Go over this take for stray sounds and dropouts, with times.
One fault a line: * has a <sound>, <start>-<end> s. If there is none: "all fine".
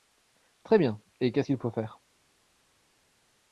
all fine